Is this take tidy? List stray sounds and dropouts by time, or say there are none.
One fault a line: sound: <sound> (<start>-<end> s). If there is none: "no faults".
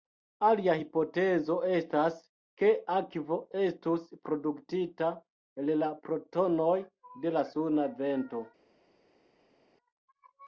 no faults